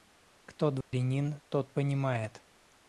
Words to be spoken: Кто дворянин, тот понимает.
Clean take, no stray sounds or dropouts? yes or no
no